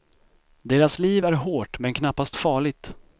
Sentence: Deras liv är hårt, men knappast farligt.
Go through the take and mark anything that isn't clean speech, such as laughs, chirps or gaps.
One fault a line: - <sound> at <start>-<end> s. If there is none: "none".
none